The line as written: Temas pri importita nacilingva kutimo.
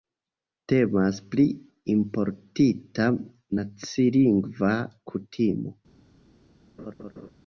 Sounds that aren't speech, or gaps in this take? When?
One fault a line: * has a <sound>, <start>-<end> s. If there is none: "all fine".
* has a laugh, 6.8-7.3 s